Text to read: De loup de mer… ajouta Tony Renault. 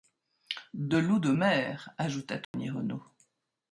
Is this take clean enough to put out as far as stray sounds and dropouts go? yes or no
no